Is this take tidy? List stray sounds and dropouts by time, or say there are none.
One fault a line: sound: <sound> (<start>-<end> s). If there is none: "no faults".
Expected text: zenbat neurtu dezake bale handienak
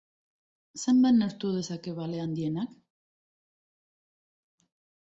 no faults